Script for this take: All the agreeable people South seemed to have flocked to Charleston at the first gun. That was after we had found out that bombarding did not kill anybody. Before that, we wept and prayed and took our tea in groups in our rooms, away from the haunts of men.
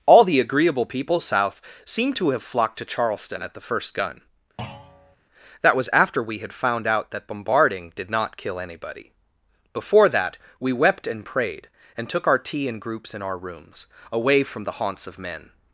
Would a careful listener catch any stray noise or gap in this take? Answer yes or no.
yes